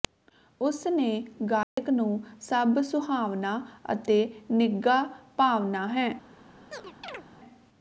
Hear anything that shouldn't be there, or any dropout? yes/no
yes